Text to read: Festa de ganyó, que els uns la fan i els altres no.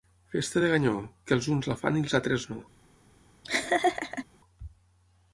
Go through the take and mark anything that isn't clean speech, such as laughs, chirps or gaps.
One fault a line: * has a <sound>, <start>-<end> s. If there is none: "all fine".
* has a laugh, 3.4-4.3 s